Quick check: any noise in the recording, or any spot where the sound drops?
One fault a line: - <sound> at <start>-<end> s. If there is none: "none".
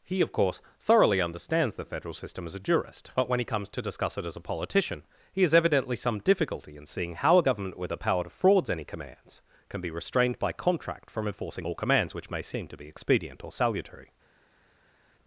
none